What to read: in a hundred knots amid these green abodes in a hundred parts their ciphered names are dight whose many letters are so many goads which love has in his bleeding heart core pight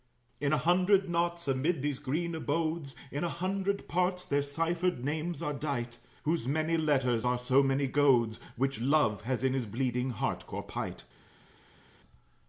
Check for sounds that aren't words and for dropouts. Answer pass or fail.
pass